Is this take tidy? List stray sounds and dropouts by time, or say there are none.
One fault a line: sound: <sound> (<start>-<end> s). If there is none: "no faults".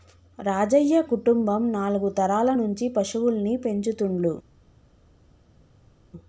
no faults